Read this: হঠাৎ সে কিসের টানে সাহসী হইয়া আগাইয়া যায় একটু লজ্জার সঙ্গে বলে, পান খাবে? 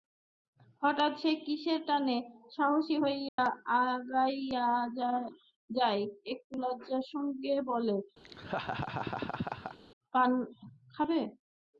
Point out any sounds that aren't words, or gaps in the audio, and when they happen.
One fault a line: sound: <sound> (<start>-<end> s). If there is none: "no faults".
sound: dropout (3.3-3.4 s)
sound: laugh (8.2-9.8 s)